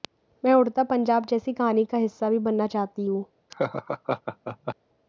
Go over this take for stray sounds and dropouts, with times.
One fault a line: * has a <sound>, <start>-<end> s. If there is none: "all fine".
* has a laugh, 3.5-4.8 s